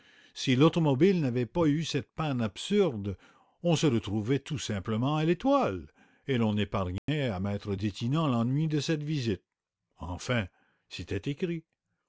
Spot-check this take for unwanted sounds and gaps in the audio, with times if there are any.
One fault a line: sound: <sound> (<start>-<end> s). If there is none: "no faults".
sound: dropout (7.0-7.1 s)